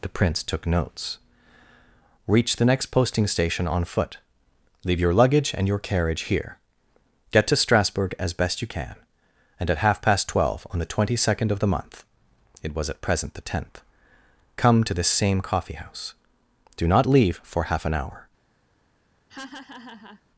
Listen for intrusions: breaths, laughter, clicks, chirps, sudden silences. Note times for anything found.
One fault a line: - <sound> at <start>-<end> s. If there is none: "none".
- laugh at 19.3-20.2 s